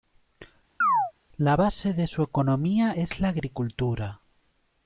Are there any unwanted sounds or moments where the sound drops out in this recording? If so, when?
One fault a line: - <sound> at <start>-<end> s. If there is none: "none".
- chirp at 0.8-1.1 s